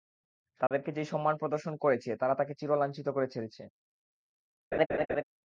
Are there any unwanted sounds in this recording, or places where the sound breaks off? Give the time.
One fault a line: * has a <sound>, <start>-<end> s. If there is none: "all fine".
* has a dropout, 0.7-0.7 s
* has a laugh, 4.7-5.2 s